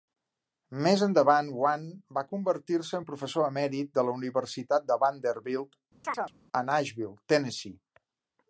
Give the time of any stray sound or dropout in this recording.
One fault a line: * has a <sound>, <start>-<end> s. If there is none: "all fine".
* has a chirp, 6.0-6.3 s